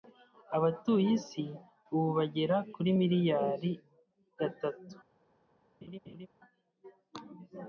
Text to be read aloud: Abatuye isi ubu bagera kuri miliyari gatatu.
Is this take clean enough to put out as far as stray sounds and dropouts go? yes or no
no